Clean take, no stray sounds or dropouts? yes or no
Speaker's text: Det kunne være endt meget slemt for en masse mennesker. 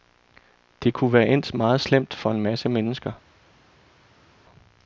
yes